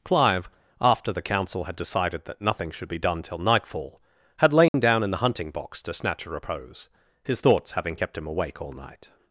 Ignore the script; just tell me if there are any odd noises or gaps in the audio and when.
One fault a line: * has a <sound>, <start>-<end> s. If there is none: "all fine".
* has a dropout, 4.7-4.7 s